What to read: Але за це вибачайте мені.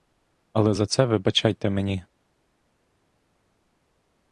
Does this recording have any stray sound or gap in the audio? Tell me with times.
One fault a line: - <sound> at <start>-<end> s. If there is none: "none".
none